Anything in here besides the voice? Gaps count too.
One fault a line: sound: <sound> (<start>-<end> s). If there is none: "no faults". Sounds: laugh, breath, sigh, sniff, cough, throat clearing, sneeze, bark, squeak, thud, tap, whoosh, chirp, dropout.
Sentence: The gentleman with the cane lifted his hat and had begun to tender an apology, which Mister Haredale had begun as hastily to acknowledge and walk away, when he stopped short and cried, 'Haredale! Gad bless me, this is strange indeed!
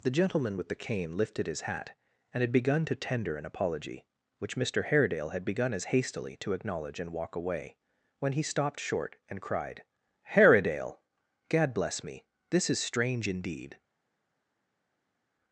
no faults